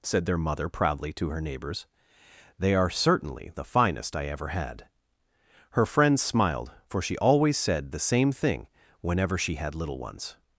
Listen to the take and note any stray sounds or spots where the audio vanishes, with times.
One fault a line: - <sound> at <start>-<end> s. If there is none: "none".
none